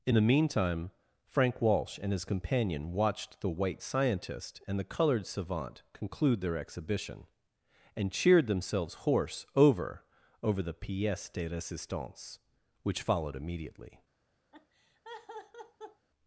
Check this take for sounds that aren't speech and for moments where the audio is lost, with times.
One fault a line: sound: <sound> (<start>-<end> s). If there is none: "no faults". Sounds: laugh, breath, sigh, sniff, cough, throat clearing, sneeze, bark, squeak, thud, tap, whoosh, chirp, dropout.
sound: laugh (14.5-16.1 s)